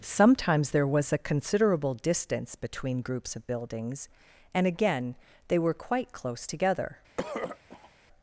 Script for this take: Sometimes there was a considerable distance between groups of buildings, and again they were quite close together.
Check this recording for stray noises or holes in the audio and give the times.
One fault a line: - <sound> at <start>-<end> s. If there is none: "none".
- throat clearing at 7.2-7.9 s